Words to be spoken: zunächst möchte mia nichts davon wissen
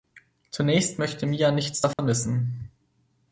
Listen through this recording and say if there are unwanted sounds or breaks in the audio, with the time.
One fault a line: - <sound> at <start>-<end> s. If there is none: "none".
- dropout at 1.9-2.0 s